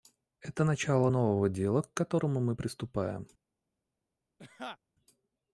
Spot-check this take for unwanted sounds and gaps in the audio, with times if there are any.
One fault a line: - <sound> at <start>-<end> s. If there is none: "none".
- laugh at 4.4-4.8 s